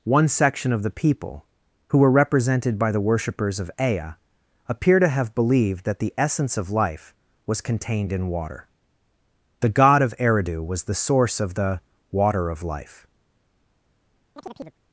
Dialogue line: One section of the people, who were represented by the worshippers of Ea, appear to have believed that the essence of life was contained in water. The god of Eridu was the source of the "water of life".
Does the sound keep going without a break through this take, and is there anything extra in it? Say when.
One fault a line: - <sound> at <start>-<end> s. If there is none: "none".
- chirp at 14.4-14.8 s